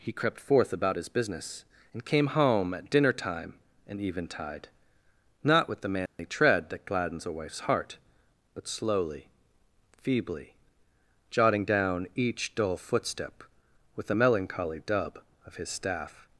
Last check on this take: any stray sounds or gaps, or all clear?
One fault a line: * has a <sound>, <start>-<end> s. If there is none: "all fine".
* has a dropout, 6.1-6.2 s